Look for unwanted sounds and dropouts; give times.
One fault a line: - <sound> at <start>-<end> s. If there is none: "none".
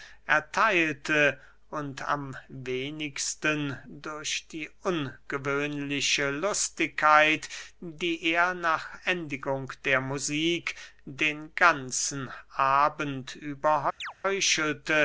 - chirp at 14.0-14.1 s